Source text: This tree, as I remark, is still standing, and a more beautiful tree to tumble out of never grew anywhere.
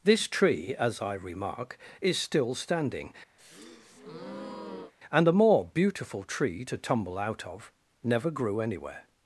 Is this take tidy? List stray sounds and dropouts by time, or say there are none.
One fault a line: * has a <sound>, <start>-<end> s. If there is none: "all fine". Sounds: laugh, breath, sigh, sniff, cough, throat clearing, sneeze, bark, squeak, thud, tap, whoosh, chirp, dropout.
* has a breath, 3.4-4.9 s